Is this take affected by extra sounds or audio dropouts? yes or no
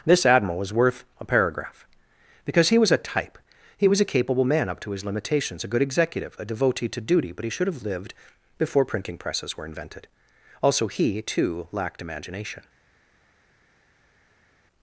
no